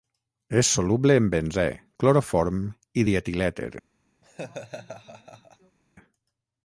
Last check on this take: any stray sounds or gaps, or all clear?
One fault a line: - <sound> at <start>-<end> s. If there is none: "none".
- laugh at 4.2-5.8 s